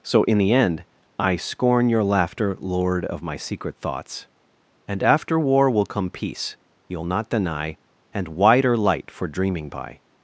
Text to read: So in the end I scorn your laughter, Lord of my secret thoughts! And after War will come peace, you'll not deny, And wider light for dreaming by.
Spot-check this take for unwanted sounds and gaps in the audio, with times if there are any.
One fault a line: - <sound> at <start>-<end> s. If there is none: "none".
none